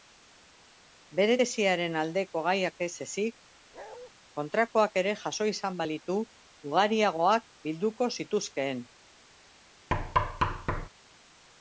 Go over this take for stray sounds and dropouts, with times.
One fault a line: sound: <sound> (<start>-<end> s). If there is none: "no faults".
sound: bark (3.7-4.1 s)
sound: thud (9.9-10.9 s)